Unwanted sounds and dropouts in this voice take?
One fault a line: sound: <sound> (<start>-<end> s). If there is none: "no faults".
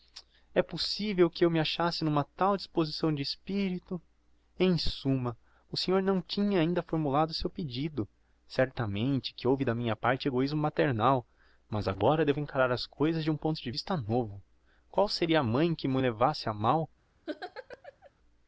sound: laugh (17.3-18.1 s)